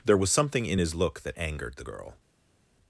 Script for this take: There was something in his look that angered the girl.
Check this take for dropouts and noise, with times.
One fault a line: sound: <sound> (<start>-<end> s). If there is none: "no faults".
no faults